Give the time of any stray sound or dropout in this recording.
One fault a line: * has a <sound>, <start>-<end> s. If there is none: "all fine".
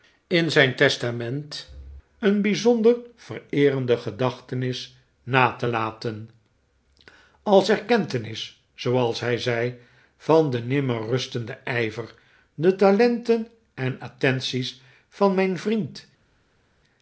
all fine